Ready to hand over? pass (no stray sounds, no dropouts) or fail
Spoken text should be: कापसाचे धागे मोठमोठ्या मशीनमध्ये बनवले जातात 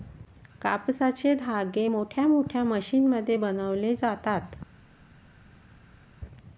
pass